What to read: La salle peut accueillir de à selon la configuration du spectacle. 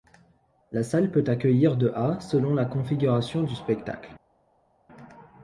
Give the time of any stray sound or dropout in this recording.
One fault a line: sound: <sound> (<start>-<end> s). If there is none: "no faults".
no faults